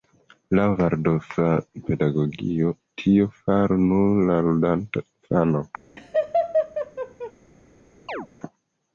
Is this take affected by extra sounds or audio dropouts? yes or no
yes